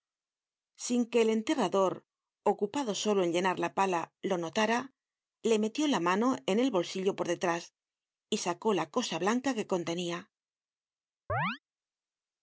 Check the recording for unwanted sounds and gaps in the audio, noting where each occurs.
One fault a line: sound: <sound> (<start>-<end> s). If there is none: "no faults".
sound: chirp (11.3-11.6 s)